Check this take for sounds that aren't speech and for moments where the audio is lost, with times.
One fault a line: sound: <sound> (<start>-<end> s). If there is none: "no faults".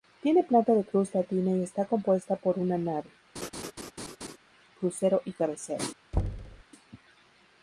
sound: laugh (3.4-4.4 s)
sound: thud (6.1-6.6 s)